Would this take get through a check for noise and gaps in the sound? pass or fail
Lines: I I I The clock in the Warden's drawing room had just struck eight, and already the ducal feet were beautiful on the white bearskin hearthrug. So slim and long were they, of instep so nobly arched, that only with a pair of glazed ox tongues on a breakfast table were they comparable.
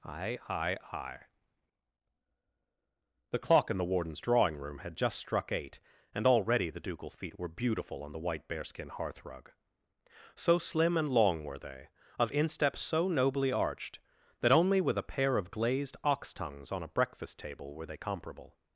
pass